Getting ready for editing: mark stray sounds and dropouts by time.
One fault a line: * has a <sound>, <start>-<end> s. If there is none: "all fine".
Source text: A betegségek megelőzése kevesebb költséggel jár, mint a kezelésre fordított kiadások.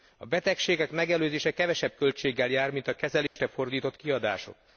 * has a dropout, 3.3-3.4 s